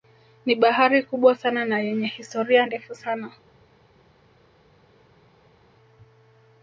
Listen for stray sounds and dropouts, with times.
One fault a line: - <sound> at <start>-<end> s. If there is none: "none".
none